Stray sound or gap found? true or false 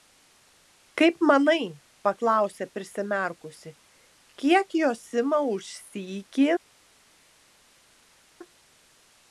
false